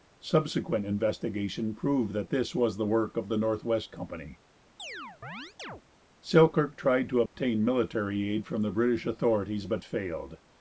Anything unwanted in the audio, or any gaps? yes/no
yes